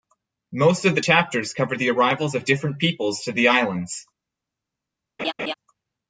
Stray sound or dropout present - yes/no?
yes